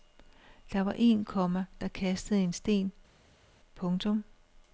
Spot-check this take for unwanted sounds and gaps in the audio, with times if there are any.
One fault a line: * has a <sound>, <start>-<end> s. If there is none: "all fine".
all fine